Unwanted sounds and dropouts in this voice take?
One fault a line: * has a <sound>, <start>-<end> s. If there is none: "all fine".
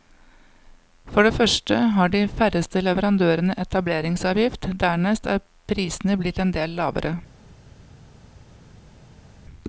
all fine